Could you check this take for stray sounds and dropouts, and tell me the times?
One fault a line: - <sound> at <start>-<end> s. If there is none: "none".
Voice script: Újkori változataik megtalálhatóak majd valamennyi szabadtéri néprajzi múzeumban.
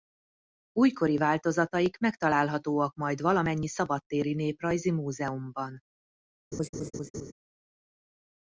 - laugh at 6.5-7.3 s